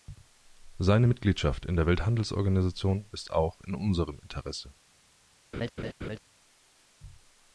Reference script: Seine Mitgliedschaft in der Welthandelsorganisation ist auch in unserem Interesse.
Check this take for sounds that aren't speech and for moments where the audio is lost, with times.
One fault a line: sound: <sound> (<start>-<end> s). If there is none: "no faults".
sound: laugh (5.5-6.2 s)